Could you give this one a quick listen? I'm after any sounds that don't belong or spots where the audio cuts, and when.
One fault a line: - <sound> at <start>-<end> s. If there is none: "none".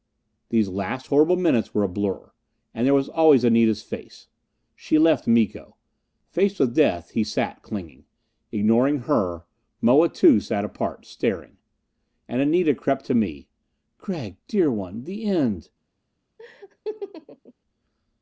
- laugh at 16.4-17.5 s